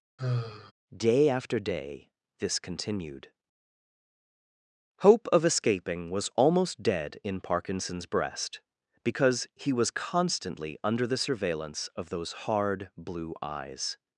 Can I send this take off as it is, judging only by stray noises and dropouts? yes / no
no